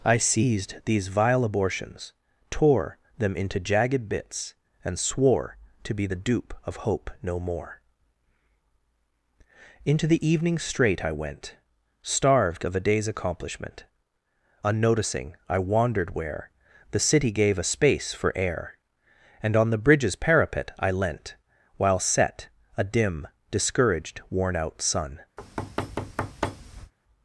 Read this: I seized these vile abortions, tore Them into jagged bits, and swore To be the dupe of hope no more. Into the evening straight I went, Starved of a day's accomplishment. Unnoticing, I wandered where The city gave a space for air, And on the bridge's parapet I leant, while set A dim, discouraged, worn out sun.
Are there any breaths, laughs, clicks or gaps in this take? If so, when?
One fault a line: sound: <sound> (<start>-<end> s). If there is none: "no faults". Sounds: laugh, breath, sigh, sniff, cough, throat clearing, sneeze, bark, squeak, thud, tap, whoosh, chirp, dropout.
sound: thud (25.4-26.9 s)